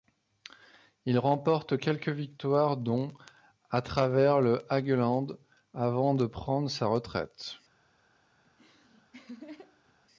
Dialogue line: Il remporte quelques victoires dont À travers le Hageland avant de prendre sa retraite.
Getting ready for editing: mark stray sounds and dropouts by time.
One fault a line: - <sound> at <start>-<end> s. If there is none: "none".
- laugh at 8.4-10.0 s